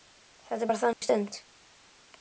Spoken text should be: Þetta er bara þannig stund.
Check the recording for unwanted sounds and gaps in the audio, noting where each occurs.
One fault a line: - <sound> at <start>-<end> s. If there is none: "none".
- dropout at 0.9-1.0 s